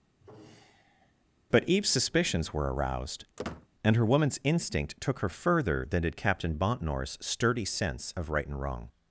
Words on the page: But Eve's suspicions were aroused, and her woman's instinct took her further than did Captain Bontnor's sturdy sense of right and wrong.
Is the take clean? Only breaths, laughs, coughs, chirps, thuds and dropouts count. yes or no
no